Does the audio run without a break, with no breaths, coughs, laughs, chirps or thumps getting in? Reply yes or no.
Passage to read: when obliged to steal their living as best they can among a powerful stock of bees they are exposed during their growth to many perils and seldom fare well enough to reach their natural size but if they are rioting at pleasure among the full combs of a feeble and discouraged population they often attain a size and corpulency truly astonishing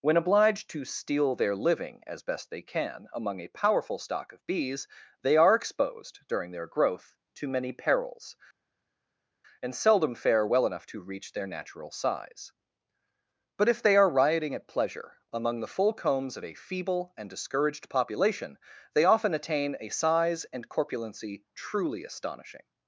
yes